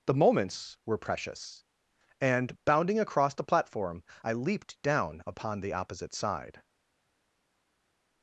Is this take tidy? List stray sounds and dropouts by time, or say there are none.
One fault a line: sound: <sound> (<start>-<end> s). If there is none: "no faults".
no faults